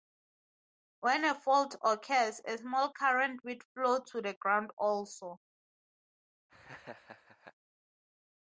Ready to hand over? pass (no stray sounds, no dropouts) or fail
fail